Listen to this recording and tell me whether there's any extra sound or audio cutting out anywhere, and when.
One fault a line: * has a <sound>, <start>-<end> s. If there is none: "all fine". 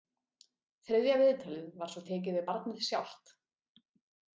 all fine